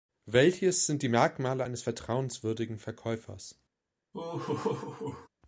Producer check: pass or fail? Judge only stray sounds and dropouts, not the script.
fail